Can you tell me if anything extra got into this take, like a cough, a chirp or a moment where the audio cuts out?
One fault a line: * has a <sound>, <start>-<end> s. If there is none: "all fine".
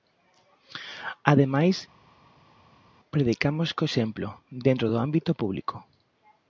all fine